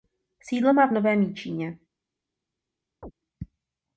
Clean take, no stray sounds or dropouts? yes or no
no